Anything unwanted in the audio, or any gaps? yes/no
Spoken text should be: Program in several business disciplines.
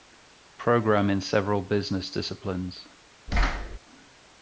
yes